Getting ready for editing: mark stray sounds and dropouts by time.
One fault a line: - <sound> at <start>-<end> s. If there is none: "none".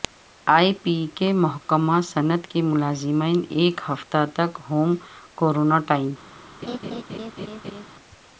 - laugh at 6.6-7.9 s